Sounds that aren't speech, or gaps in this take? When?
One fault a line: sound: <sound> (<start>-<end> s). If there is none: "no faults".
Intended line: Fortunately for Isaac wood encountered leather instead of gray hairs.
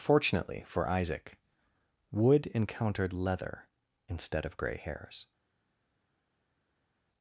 no faults